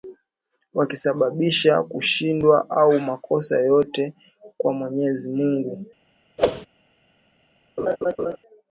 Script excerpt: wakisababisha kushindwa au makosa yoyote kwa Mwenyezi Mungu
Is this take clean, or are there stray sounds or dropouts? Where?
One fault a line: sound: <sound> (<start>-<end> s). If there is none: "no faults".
sound: whoosh (6.4-6.7 s)
sound: laugh (7.8-8.4 s)